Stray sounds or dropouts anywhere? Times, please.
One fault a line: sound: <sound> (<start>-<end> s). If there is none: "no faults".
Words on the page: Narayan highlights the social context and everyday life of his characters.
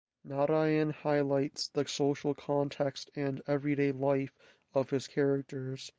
no faults